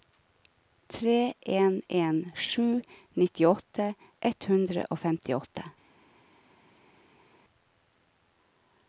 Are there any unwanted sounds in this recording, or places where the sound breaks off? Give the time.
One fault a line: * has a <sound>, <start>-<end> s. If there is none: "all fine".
all fine